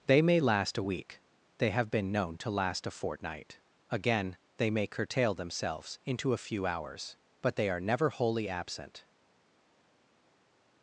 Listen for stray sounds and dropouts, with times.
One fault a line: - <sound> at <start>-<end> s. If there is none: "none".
none